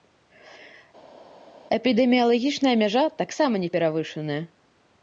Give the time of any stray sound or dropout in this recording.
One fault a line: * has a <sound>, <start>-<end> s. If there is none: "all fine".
all fine